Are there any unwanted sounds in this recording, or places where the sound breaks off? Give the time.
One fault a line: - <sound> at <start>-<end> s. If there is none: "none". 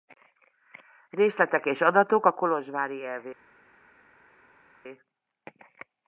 none